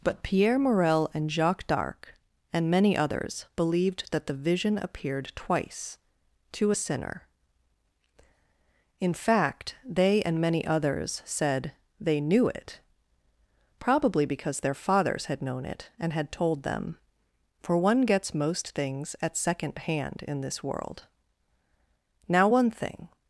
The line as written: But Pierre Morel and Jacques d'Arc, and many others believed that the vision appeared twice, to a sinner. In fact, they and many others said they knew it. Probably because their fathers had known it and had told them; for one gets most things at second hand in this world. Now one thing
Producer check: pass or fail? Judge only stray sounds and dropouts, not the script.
pass